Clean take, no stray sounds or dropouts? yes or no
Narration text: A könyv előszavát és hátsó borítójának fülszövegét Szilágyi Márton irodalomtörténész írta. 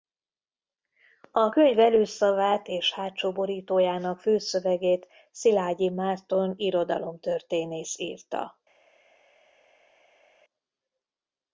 yes